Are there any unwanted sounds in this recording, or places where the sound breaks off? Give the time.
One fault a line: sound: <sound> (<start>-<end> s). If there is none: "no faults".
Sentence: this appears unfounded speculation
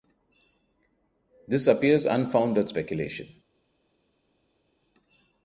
no faults